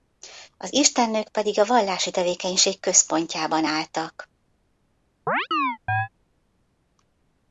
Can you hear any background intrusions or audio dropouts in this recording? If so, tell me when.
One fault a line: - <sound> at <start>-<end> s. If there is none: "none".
- chirp at 5.3-6.1 s